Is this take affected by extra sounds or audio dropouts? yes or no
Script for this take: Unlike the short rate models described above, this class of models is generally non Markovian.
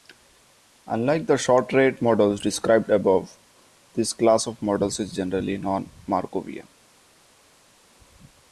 no